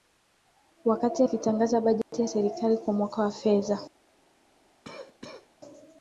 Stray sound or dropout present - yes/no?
yes